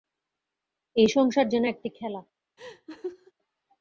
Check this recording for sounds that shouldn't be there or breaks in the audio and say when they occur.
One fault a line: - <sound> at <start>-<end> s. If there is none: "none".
- laugh at 2.6-3.3 s